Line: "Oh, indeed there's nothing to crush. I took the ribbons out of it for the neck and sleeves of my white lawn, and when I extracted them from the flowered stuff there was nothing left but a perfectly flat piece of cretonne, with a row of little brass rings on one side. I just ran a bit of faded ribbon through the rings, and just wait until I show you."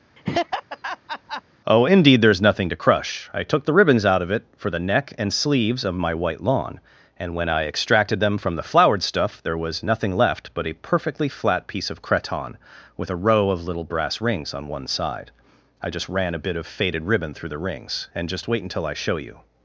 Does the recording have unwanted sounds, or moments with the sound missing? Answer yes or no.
yes